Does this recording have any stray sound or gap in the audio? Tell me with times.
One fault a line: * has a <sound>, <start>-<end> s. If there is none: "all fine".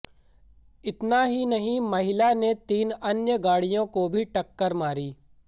all fine